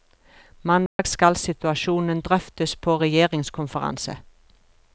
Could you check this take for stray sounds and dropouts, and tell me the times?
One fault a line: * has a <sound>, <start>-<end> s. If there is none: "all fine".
* has a dropout, 0.9-1.0 s